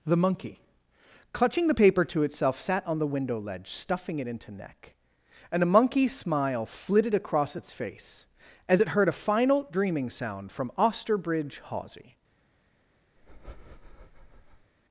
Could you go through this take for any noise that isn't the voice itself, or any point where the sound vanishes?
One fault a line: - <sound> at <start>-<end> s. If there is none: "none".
- breath at 13.2-14.7 s